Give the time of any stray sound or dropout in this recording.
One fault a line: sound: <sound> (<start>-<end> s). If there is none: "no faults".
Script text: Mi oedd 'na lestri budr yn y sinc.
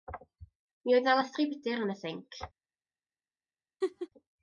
sound: laugh (3.8-4.1 s)